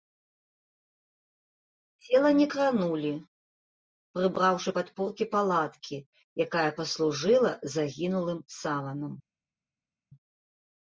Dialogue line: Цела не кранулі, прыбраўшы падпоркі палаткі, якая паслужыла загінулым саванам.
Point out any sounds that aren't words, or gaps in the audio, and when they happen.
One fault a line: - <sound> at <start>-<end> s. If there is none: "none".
none